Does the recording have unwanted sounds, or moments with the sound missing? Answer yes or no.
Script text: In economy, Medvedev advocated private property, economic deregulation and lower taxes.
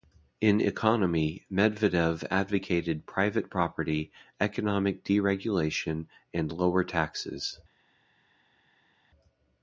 no